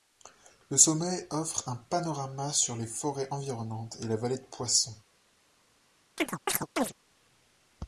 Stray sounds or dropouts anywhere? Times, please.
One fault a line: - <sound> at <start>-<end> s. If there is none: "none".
- chirp at 6.2-6.9 s